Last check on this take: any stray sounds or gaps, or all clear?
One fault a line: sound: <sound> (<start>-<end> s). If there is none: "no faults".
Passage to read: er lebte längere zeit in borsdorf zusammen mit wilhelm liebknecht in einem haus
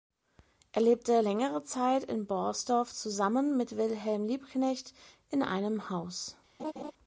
sound: laugh (6.6-6.9 s)